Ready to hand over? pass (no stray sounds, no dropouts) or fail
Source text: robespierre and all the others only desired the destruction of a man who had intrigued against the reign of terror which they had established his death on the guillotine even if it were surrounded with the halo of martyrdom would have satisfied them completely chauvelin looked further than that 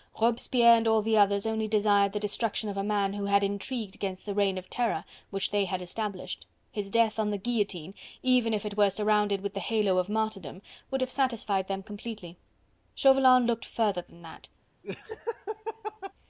fail